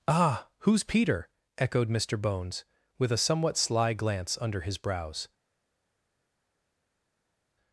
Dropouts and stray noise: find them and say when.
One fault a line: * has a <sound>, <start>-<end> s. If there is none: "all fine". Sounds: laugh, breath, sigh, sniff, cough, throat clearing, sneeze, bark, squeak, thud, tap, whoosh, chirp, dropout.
all fine